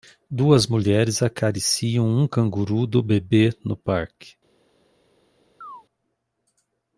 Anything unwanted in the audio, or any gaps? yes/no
yes